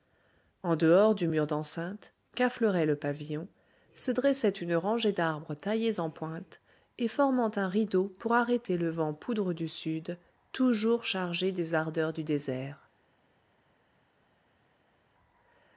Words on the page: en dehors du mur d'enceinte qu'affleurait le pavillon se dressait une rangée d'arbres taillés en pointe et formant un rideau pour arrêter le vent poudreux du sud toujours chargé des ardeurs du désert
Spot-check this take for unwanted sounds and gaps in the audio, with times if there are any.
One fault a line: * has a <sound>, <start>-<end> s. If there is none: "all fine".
all fine